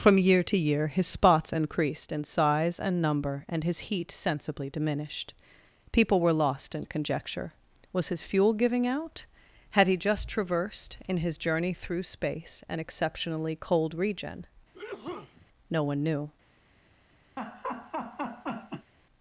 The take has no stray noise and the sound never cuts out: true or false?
false